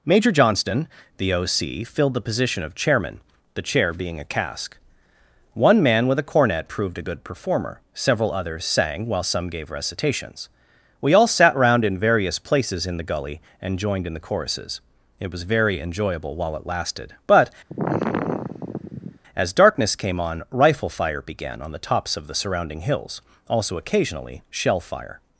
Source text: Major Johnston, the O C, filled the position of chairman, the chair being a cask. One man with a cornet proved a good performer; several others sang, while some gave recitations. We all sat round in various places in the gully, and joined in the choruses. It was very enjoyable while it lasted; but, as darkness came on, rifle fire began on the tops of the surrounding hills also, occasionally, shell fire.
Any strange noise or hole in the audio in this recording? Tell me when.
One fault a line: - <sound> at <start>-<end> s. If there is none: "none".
- sigh at 17.7-19.2 s